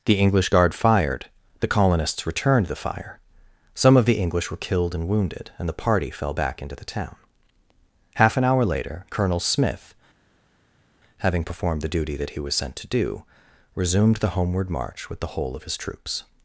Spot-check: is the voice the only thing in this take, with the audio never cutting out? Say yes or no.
yes